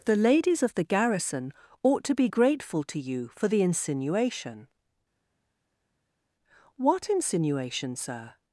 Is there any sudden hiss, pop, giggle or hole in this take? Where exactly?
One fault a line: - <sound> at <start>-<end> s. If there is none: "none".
none